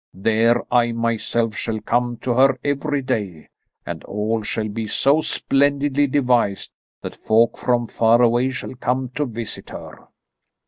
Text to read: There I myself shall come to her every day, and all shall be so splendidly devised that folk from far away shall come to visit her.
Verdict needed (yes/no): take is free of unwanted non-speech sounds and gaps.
yes